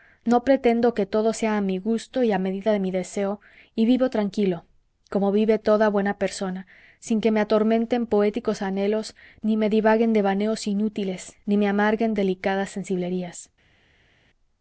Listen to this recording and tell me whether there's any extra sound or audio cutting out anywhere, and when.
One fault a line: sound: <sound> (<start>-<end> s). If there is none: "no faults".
no faults